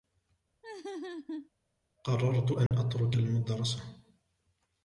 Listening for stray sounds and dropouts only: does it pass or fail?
fail